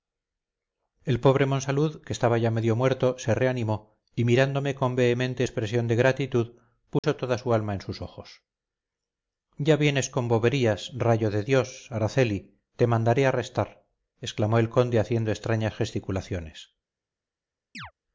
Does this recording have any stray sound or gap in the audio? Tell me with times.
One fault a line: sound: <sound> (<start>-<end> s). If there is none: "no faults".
sound: dropout (7.0-7.0 s)
sound: chirp (17.7-17.9 s)